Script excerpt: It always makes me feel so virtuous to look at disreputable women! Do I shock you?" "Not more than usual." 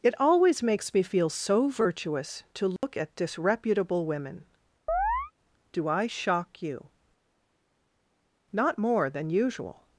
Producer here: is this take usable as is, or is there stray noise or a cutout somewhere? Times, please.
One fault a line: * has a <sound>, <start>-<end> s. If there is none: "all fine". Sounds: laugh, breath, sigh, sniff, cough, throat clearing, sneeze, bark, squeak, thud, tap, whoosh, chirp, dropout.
* has a dropout, 2.8-2.8 s
* has a chirp, 4.9-5.3 s